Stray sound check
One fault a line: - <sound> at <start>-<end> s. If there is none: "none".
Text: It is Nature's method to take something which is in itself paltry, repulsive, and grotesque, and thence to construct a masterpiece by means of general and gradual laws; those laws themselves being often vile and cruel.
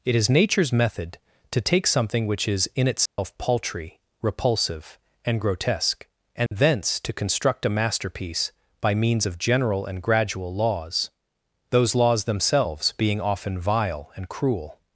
- dropout at 3.1-3.2 s
- dropout at 6.5-6.5 s